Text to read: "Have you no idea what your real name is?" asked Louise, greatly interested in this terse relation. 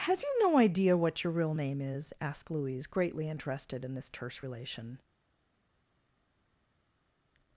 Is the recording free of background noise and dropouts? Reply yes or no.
yes